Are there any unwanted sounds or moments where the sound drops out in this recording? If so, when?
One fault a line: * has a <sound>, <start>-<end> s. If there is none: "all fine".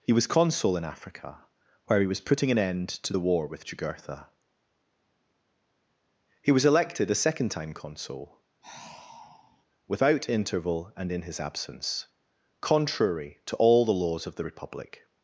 * has a sigh, 8.6-9.6 s